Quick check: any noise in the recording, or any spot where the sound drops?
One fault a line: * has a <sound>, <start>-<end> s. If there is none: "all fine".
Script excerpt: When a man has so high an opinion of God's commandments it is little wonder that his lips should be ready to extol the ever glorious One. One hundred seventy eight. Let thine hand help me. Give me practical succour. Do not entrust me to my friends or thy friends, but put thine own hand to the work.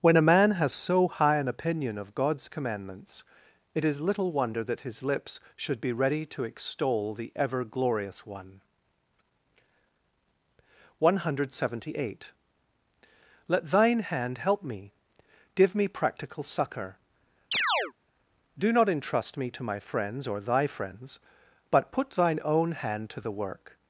* has a chirp, 17.5-17.9 s